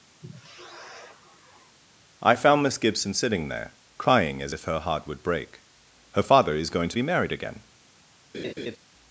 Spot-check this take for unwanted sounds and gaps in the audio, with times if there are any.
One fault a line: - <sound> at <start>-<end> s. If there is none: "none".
- sigh at 0.2-1.8 s
- laugh at 8.3-8.8 s